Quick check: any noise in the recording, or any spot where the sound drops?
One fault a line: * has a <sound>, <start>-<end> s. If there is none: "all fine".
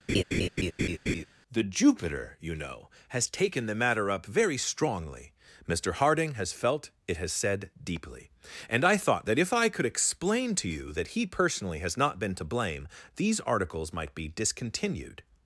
* has a laugh, 0.1-1.2 s